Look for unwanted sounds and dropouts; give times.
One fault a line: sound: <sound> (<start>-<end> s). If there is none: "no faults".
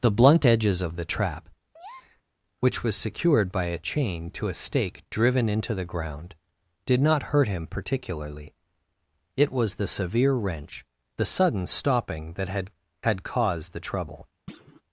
sound: breath (1.7-2.2 s)
sound: thud (14.5-14.8 s)